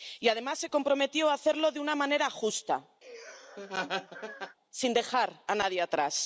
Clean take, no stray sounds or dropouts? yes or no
no